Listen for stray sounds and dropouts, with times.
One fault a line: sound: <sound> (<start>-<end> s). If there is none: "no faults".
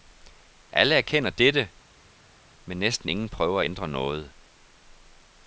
no faults